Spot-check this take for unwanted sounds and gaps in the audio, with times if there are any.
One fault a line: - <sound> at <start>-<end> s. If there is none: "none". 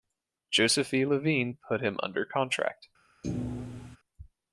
- thud at 3.2-4.0 s